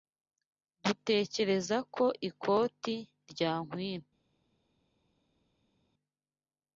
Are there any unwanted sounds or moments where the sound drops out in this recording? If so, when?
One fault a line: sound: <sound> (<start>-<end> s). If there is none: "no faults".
no faults